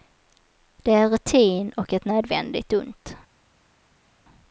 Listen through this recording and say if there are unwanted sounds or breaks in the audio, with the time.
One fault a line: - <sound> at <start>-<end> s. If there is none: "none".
none